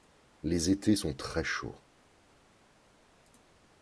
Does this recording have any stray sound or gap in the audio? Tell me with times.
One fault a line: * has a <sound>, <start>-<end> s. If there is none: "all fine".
all fine